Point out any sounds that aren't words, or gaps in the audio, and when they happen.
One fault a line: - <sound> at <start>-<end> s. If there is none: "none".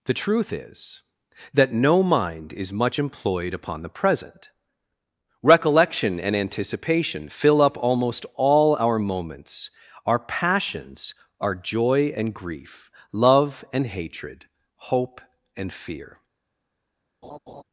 - laugh at 17.2-17.6 s